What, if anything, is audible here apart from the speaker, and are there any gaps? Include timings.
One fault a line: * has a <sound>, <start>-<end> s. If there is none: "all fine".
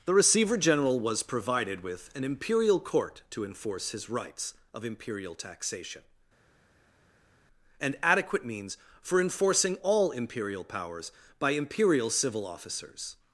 all fine